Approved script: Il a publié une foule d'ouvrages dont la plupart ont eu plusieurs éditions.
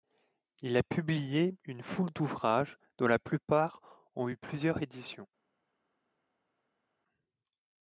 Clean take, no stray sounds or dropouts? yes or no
yes